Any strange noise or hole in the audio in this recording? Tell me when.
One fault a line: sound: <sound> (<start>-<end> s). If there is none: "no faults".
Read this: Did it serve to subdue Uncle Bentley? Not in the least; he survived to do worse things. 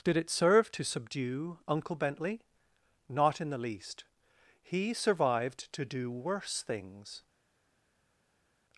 no faults